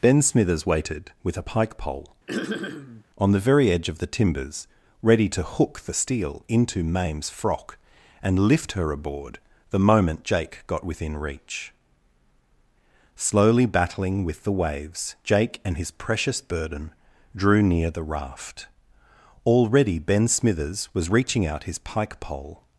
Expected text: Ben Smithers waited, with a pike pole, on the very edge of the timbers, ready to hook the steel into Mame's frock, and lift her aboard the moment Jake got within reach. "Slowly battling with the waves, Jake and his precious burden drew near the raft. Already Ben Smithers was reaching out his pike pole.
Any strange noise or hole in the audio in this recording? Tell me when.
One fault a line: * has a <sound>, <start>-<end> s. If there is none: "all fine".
* has a throat clearing, 2.3-3.0 s